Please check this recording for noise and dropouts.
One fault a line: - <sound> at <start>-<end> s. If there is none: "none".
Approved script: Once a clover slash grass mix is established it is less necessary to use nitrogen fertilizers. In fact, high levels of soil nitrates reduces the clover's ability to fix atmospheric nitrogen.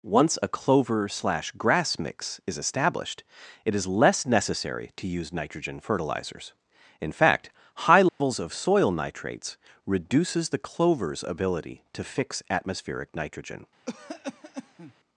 - dropout at 8.1-8.2 s
- cough at 13.9-14.9 s